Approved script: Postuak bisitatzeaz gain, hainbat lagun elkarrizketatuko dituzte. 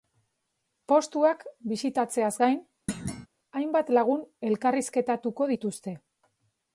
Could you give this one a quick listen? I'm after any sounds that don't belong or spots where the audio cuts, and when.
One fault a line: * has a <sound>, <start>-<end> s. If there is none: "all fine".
* has a thud, 2.9-3.3 s